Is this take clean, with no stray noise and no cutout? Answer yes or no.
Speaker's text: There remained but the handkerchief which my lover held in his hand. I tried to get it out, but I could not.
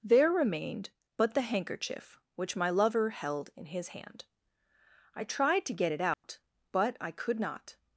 no